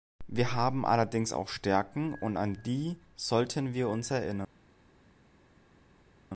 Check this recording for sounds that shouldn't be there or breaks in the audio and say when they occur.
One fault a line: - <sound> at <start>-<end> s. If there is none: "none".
none